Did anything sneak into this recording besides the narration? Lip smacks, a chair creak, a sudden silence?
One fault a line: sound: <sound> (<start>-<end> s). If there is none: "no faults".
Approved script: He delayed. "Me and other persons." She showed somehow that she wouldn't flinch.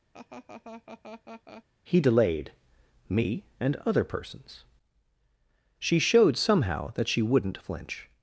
sound: laugh (0.1-1.6 s)